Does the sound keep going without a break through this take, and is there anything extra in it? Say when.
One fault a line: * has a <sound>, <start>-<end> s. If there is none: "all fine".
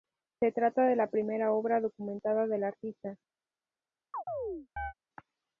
* has a chirp, 4.1-4.9 s